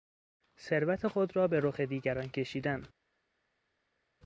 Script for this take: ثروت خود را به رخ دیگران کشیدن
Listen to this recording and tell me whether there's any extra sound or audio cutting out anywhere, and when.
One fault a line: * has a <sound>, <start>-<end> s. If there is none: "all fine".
all fine